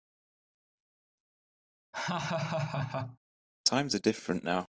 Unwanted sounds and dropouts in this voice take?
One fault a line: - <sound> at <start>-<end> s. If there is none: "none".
- laugh at 1.9-3.2 s